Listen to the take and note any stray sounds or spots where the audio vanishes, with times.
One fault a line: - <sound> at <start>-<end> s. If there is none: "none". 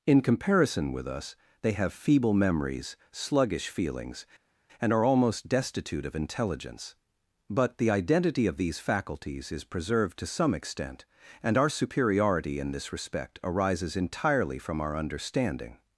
none